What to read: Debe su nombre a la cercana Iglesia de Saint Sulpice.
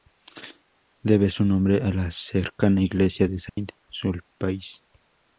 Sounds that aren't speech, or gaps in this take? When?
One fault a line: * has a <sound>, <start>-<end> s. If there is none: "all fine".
* has a dropout, 3.5-3.6 s